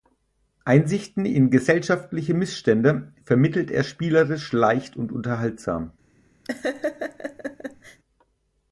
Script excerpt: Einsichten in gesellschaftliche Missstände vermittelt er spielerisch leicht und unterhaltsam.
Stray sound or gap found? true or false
true